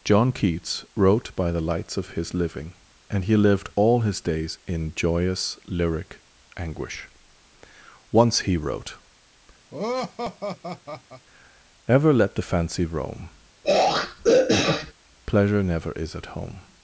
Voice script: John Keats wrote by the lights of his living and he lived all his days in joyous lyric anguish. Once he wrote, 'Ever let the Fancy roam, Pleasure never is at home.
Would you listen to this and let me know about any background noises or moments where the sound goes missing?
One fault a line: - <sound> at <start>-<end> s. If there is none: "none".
- laugh at 9.7-11.3 s
- throat clearing at 13.6-14.9 s